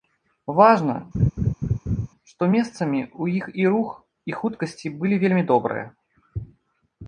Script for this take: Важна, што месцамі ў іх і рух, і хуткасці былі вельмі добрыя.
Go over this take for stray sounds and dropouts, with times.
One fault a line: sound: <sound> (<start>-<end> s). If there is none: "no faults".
sound: laugh (1.1-2.1 s)